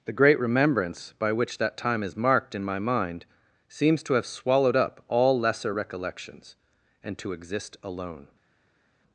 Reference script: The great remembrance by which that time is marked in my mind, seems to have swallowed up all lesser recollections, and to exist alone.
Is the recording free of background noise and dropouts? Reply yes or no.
yes